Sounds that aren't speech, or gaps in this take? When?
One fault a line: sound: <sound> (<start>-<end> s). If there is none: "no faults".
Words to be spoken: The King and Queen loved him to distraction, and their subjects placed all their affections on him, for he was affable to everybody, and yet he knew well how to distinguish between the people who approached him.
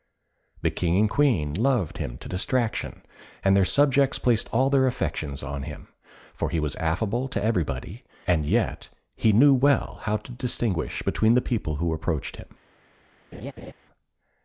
sound: laugh (13.3-13.7 s)